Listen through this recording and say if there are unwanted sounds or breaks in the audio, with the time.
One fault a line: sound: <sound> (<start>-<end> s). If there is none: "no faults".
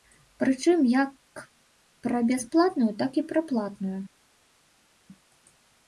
no faults